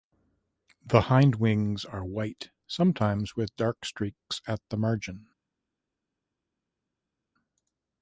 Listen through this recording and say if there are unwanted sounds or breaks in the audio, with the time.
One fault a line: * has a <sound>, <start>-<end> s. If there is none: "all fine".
all fine